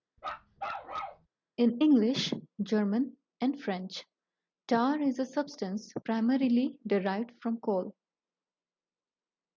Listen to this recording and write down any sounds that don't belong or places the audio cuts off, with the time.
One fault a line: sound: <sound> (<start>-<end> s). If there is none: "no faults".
sound: bark (0.2-1.3 s)